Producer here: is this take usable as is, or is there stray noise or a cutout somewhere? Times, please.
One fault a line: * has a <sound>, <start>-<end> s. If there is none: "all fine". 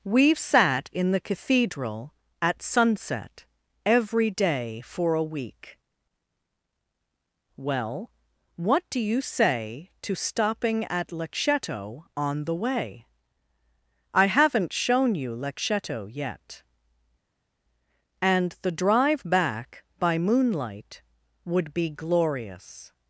all fine